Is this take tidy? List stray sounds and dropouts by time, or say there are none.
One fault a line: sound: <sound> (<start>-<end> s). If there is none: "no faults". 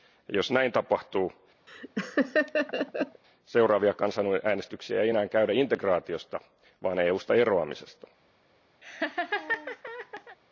sound: laugh (1.7-3.2 s)
sound: laugh (8.8-10.4 s)